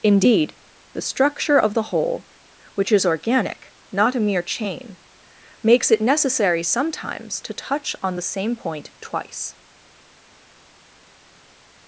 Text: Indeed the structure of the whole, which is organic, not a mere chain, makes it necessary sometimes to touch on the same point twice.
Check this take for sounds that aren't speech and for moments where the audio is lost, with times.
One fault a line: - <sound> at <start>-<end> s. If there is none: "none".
none